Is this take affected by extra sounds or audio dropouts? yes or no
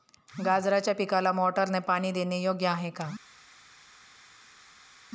no